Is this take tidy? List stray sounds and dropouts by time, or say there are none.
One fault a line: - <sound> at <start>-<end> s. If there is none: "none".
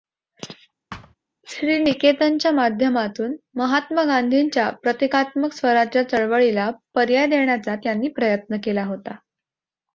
- thud at 0.9-1.2 s